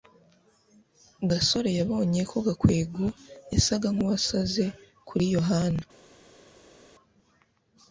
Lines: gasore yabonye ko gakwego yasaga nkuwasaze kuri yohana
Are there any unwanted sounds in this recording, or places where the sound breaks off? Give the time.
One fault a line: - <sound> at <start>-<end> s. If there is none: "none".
none